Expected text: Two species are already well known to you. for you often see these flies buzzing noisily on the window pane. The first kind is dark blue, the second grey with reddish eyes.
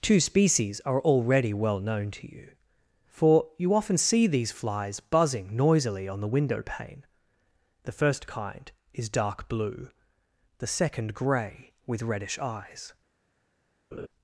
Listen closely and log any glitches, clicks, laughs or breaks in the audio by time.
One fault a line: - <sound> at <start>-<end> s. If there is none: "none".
- laugh at 13.9-14.1 s